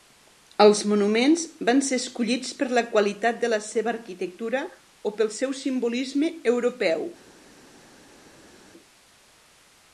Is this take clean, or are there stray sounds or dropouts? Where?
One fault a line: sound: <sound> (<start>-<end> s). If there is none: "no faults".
no faults